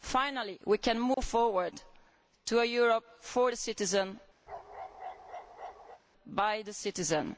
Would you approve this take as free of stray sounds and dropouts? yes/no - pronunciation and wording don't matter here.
no